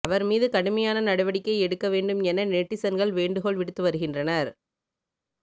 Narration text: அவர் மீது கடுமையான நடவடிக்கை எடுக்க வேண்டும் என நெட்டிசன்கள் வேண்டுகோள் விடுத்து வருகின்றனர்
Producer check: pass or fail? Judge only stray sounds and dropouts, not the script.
pass